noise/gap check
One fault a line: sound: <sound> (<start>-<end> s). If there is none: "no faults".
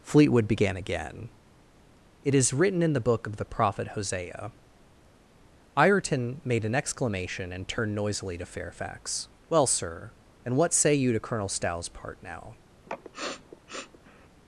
sound: sniff (12.9-14.3 s)